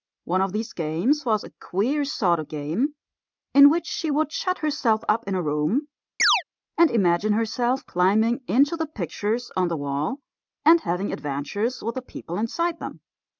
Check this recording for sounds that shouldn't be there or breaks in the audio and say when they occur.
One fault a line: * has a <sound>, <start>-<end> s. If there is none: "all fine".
* has a chirp, 6.2-6.4 s